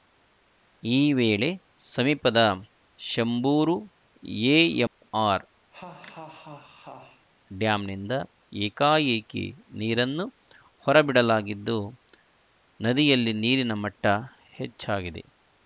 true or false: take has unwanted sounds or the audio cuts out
true